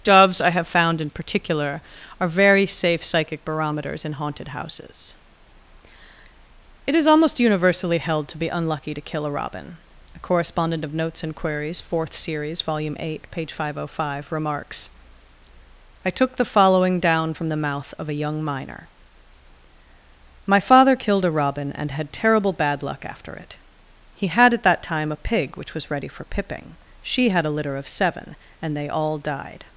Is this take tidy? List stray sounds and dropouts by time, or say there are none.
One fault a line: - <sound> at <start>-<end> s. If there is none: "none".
none